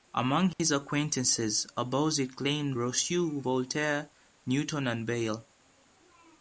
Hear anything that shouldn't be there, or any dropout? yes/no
yes